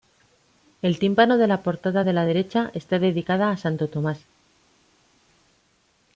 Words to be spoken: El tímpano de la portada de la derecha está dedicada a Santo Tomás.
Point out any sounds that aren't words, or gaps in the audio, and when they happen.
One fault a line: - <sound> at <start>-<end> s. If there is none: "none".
none